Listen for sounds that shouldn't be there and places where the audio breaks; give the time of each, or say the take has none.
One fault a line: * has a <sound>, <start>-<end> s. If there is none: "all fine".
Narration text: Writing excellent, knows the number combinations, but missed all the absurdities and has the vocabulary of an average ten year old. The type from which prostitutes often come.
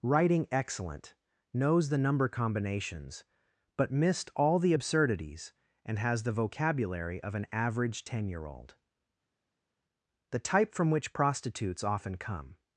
all fine